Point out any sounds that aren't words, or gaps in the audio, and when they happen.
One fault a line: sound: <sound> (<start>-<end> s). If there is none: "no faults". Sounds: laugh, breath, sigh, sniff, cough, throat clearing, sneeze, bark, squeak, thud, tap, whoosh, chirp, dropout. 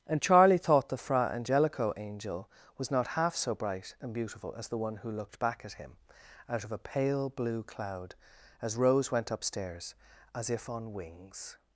no faults